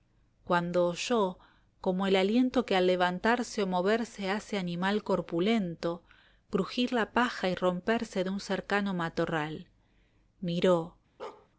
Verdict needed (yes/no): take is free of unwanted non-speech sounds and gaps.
no